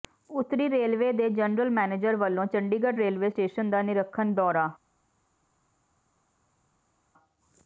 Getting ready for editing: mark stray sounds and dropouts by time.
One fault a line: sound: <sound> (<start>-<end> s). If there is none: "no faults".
no faults